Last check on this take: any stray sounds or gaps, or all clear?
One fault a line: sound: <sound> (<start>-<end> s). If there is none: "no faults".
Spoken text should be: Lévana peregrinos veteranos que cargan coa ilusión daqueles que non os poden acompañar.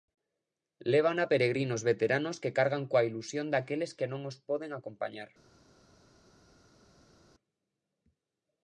no faults